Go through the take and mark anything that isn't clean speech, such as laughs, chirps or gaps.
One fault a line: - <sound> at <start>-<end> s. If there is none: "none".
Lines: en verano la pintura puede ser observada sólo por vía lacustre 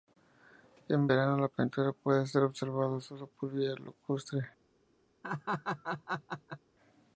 - laugh at 5.2-6.6 s